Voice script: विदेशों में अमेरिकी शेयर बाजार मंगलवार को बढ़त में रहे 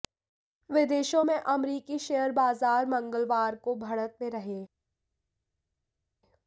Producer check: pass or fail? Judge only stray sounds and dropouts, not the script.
pass